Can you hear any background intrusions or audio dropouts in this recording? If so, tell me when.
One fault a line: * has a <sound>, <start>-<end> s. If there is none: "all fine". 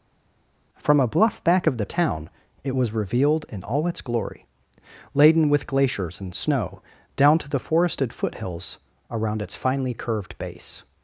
all fine